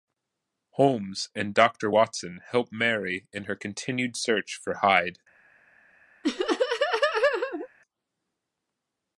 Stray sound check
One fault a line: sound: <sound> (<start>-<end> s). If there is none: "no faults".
sound: laugh (6.2-7.7 s)